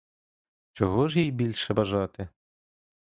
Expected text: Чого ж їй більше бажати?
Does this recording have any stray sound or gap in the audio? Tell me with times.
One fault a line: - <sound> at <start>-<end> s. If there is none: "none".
none